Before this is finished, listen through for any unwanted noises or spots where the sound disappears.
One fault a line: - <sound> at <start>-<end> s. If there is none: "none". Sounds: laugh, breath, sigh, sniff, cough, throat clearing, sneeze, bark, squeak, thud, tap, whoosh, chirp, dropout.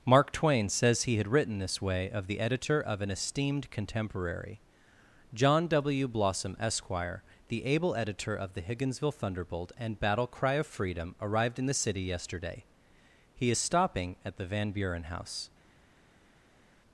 none